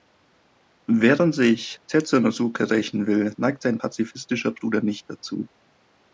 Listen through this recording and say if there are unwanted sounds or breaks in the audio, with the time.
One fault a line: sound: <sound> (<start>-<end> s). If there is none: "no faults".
no faults